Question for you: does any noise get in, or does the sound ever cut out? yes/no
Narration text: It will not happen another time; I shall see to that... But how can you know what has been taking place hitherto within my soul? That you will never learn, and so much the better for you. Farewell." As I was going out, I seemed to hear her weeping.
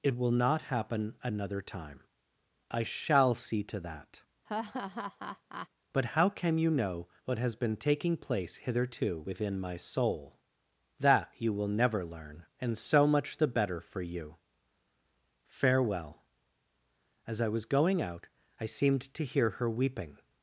yes